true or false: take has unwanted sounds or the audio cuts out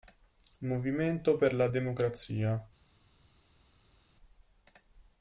false